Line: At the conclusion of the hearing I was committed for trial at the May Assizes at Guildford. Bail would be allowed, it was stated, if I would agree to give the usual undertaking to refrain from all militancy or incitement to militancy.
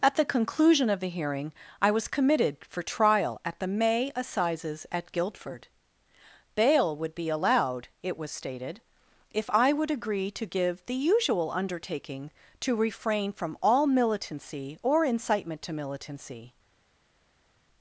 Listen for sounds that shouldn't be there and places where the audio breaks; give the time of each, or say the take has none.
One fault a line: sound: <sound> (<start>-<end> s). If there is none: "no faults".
no faults